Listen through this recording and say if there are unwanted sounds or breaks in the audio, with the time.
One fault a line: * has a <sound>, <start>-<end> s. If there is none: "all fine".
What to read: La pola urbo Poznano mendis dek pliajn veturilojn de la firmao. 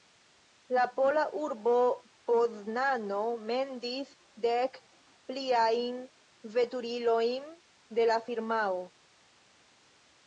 all fine